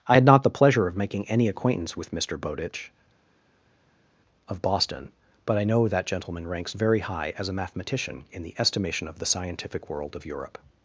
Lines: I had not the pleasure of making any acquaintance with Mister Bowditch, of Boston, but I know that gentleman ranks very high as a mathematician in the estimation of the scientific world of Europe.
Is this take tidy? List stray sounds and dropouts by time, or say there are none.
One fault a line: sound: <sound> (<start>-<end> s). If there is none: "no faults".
no faults